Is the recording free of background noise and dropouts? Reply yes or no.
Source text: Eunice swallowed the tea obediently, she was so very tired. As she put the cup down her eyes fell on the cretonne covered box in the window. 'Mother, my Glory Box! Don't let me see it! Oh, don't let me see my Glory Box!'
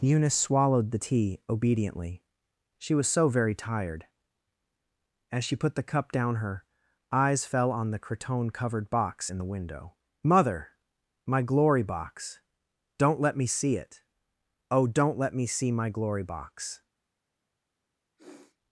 no